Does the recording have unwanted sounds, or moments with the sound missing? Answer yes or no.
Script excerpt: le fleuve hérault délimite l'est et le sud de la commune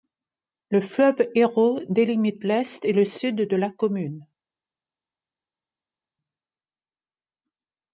no